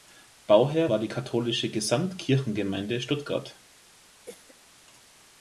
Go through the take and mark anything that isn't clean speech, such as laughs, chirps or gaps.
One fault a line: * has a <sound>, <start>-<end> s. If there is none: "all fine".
* has a cough, 4.2-4.5 s